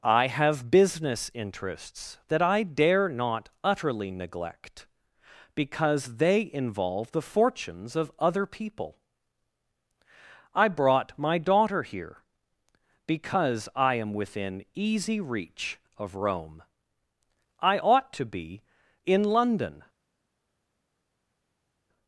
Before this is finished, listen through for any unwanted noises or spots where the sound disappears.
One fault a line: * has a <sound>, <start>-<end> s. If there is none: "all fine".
all fine